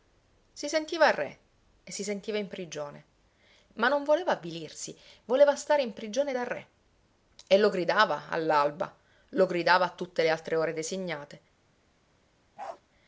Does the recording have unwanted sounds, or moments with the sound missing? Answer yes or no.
yes